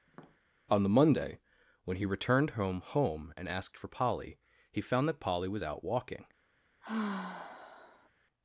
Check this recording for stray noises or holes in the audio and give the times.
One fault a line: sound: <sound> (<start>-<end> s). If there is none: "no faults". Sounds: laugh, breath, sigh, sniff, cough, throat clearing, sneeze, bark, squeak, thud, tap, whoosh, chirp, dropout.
sound: tap (0.1-0.4 s)
sound: sigh (6.8-8.1 s)